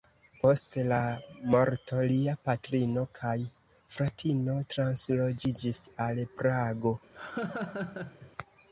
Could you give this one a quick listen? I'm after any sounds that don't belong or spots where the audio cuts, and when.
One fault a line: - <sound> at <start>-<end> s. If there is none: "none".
- laugh at 7.1-8.3 s